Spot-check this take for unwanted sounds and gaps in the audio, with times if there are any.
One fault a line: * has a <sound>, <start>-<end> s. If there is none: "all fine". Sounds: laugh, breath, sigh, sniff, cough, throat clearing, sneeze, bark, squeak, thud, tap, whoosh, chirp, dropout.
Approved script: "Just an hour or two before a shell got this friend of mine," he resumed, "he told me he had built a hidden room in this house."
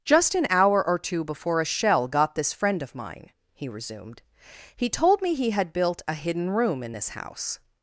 all fine